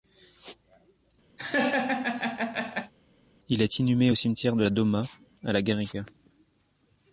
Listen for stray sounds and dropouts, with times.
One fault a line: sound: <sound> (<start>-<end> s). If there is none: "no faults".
sound: laugh (1.4-2.9 s)